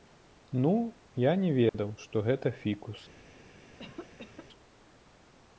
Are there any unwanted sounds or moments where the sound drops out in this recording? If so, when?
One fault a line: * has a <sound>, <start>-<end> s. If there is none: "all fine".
* has a dropout, 1.7-1.7 s
* has a cough, 3.8-4.5 s